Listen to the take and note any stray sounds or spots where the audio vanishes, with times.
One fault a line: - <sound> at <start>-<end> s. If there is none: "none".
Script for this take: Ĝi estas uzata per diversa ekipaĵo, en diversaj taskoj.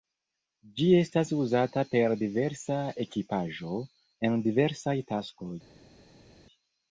none